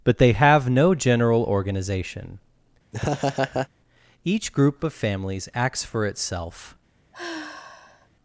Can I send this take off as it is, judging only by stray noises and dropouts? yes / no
no